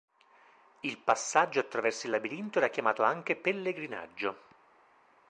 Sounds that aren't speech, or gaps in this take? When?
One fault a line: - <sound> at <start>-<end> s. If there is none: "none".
none